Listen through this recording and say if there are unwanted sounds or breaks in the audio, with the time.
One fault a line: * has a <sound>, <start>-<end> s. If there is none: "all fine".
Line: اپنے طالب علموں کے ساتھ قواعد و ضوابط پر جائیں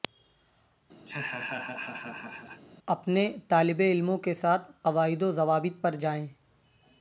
* has a laugh, 1.1-2.6 s